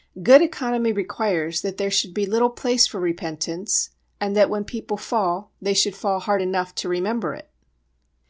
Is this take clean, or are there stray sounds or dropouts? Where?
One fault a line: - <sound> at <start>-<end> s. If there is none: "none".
none